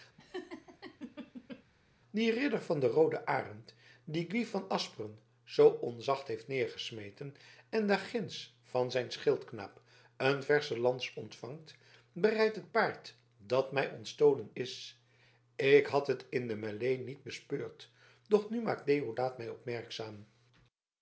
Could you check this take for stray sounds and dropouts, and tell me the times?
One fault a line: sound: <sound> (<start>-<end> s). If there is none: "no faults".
sound: laugh (0.2-1.6 s)